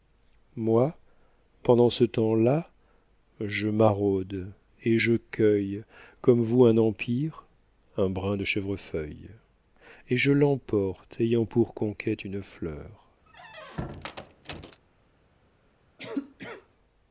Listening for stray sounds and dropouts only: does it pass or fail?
fail